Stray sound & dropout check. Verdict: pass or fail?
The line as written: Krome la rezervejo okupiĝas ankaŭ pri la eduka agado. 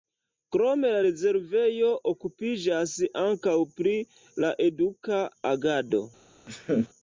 fail